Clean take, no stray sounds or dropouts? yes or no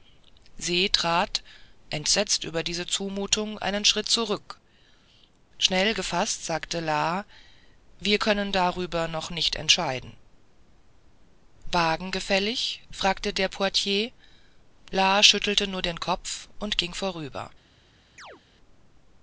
no